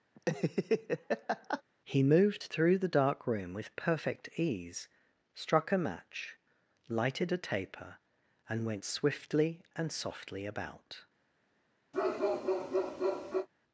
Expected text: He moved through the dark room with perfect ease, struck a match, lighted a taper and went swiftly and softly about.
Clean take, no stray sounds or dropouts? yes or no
no